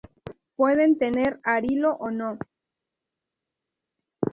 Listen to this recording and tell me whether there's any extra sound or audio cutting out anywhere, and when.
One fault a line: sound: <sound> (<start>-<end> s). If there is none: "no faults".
no faults